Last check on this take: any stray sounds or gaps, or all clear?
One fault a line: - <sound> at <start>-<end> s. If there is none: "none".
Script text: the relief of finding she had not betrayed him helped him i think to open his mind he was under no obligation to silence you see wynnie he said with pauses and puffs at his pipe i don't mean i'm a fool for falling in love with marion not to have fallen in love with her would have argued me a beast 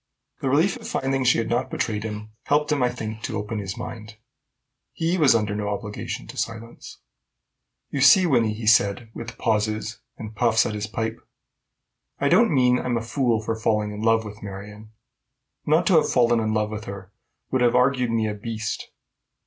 none